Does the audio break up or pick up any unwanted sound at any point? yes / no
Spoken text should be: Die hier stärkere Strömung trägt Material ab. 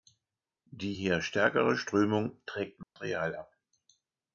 yes